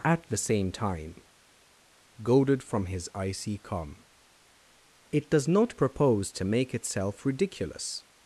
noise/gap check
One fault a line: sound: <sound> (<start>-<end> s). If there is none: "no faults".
no faults